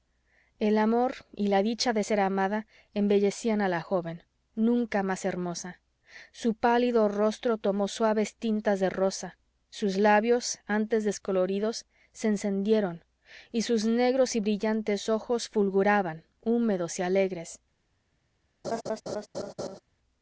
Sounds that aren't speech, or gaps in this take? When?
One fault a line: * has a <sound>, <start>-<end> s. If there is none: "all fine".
* has a laugh, 18.6-19.8 s